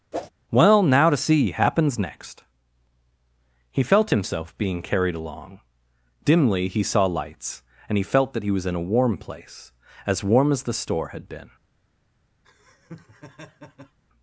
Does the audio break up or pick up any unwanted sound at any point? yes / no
yes